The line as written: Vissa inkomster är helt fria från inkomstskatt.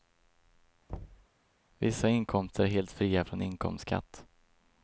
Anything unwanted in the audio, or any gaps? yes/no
yes